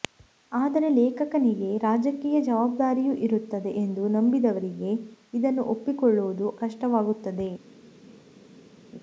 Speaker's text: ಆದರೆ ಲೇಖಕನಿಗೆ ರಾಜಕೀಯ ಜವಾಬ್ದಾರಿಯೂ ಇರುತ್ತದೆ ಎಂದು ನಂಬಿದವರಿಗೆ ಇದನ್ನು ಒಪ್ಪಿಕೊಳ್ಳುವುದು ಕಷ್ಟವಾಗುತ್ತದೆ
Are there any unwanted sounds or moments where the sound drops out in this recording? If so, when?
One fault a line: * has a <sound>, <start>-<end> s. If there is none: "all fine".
all fine